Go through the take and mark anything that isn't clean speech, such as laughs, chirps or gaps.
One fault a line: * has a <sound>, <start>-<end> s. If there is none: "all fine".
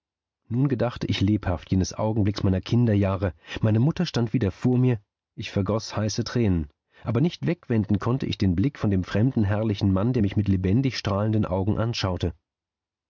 all fine